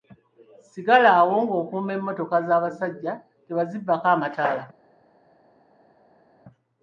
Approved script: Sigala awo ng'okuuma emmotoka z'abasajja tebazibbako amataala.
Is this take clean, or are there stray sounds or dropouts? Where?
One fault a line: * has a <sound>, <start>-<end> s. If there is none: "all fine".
all fine